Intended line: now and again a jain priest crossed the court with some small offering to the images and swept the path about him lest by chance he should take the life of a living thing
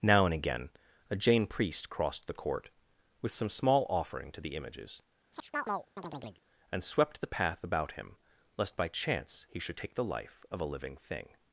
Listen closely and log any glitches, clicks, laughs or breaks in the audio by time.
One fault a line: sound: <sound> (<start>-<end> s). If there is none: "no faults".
sound: chirp (5.3-6.4 s)